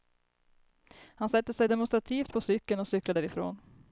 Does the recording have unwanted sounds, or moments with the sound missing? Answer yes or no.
no